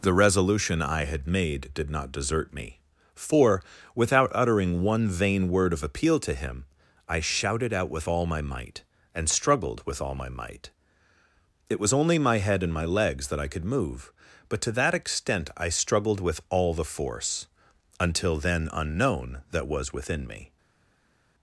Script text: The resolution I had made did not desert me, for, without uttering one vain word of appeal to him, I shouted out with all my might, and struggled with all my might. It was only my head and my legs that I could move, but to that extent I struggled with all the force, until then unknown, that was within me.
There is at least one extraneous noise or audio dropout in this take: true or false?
false